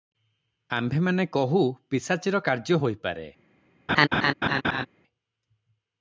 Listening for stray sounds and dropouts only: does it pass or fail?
fail